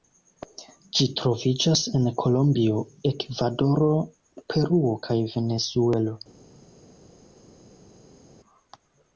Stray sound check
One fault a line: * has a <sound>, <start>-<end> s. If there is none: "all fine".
all fine